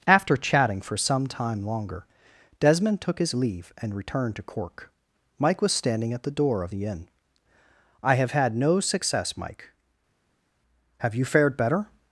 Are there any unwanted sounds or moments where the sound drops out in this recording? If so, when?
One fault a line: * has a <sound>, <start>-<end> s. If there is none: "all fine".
all fine